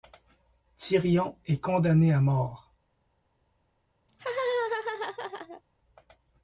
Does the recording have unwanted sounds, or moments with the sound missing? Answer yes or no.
yes